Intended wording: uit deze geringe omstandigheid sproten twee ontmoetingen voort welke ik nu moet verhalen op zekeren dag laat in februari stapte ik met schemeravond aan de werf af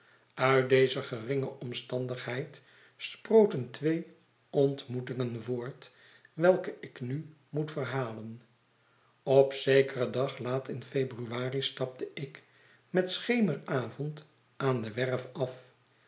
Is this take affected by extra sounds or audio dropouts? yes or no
no